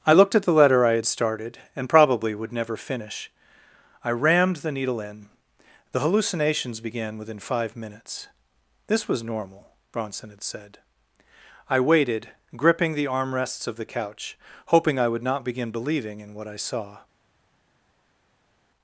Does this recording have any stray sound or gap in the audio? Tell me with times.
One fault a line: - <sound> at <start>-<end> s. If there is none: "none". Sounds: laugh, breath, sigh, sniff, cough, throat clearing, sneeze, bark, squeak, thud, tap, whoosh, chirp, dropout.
none